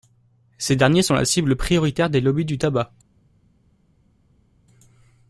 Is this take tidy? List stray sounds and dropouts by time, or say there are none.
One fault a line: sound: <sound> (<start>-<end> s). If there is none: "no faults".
no faults